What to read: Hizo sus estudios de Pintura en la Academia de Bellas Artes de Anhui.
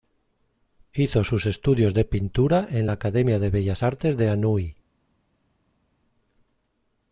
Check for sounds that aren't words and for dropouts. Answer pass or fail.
pass